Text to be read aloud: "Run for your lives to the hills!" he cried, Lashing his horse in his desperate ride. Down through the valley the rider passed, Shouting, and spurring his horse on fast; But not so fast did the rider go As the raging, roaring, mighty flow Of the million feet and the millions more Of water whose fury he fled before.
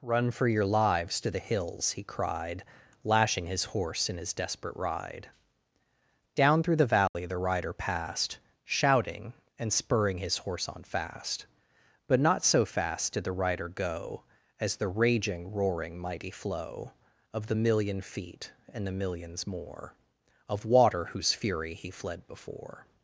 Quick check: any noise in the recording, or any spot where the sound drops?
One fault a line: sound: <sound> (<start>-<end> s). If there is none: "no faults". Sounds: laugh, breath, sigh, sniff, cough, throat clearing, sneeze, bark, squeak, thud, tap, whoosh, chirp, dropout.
sound: dropout (7.1-7.1 s)